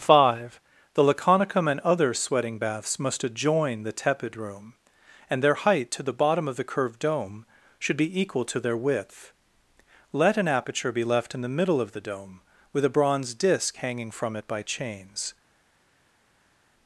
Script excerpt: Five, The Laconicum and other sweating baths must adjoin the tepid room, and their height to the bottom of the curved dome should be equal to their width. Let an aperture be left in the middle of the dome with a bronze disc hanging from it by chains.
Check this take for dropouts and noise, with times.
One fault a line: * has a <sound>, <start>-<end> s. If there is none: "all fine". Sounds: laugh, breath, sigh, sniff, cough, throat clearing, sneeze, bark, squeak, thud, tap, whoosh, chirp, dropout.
all fine